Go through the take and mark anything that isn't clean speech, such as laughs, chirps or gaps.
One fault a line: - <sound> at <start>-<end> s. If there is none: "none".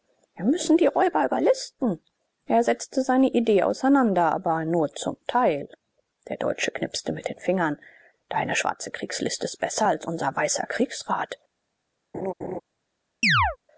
- laugh at 12.1-12.6 s
- chirp at 13.2-13.6 s